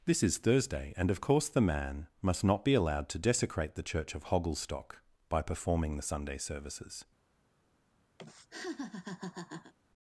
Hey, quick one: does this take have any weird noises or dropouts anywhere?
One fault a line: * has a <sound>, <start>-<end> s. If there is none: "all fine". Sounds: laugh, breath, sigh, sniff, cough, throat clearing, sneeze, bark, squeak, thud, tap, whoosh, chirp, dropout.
* has a laugh, 8.2-9.7 s